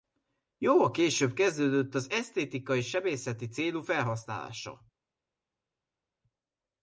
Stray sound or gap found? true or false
false